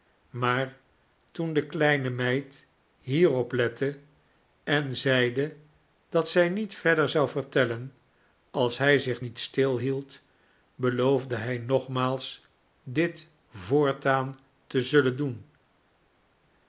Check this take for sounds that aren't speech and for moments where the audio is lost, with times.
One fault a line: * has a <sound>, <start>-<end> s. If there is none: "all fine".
all fine